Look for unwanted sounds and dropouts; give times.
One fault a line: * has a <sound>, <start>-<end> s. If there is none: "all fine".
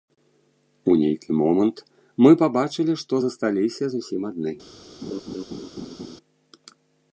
* has a laugh, 5.0-6.2 s